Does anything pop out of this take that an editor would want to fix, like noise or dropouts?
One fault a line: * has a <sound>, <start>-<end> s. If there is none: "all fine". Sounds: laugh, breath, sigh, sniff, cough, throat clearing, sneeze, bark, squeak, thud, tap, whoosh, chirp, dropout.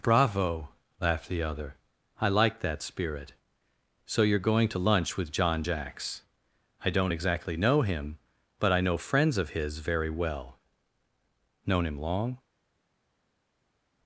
all fine